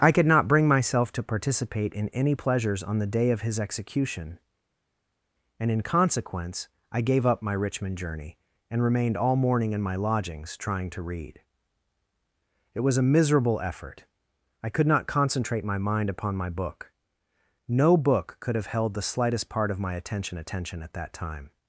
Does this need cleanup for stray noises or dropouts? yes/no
no